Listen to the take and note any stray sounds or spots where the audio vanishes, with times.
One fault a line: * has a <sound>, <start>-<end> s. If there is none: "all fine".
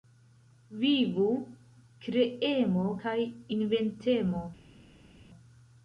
all fine